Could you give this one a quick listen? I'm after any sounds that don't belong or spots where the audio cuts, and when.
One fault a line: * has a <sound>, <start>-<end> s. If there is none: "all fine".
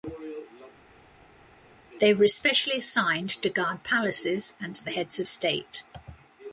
all fine